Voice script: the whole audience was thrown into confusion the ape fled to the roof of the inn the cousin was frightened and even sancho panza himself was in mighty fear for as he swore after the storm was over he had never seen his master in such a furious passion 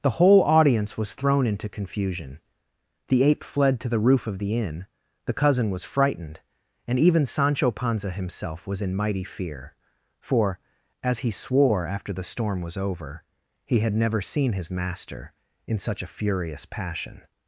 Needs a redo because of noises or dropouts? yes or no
no